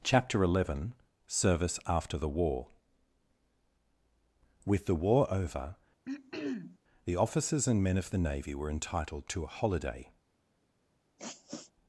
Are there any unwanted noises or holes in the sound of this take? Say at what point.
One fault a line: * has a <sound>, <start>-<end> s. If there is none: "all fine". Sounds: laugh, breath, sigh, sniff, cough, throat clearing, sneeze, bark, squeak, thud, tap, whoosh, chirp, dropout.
* has a throat clearing, 6.0-6.8 s
* has a sniff, 11.2-11.7 s